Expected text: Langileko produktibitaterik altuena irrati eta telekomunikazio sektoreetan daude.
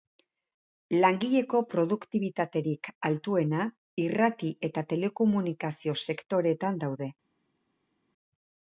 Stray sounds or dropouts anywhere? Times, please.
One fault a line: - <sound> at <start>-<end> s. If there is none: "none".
none